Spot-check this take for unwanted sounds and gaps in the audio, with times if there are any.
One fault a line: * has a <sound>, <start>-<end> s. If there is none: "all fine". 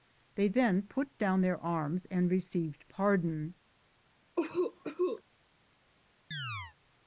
* has a cough, 4.4-5.2 s
* has a chirp, 6.3-6.8 s